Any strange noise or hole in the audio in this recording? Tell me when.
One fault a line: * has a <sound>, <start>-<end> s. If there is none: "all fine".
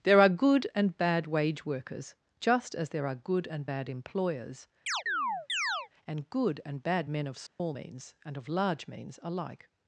* has a chirp, 4.9-5.9 s
* has a dropout, 7.5-7.6 s